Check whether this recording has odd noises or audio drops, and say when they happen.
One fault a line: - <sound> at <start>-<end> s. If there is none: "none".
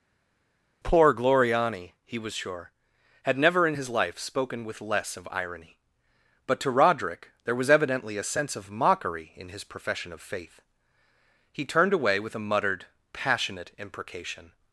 none